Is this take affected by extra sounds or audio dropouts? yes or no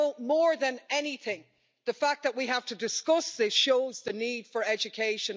no